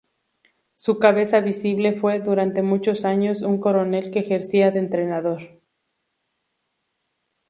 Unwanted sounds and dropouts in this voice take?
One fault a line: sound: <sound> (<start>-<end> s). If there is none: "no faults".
no faults